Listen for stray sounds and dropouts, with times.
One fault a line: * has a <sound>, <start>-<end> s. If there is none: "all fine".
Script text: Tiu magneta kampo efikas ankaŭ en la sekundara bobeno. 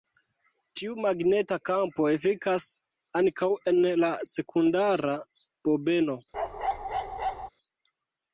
* has a bark, 6.3-7.5 s